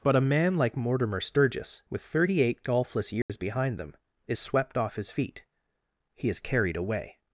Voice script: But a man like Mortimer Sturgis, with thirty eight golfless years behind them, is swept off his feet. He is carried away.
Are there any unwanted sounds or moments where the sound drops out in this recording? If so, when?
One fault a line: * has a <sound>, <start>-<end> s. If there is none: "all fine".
* has a dropout, 3.2-3.3 s